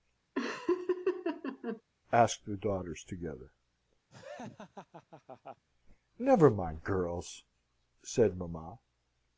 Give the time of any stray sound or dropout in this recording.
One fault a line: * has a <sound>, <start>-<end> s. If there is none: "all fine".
* has a laugh, 0.4-1.8 s
* has a laugh, 4.1-5.6 s